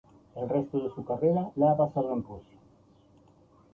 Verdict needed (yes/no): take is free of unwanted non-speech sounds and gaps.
yes